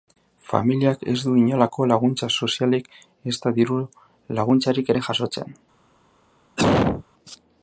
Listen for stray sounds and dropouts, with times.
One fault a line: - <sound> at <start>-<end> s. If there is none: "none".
- cough at 6.6-7.0 s